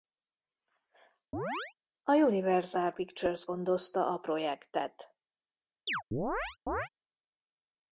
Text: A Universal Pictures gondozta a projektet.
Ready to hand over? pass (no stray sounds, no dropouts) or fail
fail